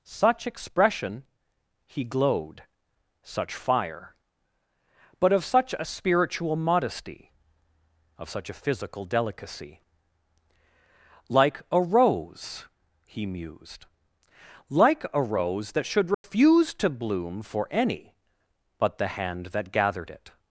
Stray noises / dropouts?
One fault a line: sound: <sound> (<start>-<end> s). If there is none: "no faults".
sound: dropout (16.1-16.2 s)